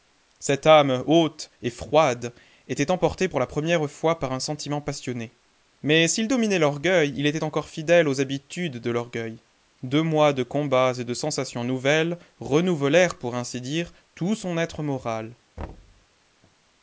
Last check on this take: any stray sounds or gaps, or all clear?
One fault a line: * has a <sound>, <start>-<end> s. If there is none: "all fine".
* has a thud, 15.6-16.1 s